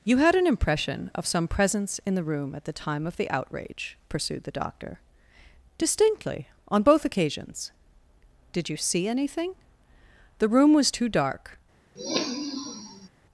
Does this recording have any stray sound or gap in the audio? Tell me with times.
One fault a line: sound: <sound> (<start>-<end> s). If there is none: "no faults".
sound: sniff (12.0-13.1 s)